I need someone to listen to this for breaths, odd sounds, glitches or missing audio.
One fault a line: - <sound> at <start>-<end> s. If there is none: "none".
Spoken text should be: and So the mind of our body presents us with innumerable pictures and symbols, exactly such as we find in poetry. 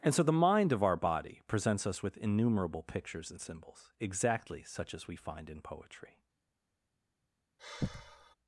- sigh at 7.6-8.3 s